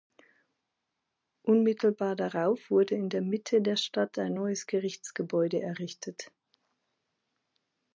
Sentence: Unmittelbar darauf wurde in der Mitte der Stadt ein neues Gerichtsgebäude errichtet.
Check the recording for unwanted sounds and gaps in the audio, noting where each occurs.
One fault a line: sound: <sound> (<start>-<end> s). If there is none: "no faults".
no faults